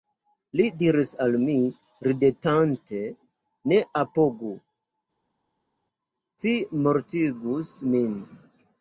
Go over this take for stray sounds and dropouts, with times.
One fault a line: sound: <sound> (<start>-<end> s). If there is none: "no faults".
no faults